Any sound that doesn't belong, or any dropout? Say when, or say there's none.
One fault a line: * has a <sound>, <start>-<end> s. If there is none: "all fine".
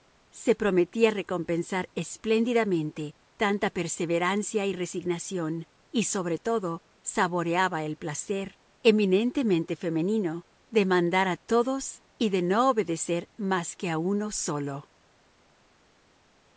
all fine